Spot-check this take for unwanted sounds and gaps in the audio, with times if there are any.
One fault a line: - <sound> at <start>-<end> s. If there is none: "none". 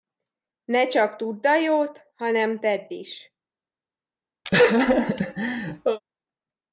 - laugh at 4.5-6.0 s